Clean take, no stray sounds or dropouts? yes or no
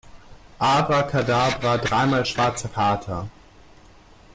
yes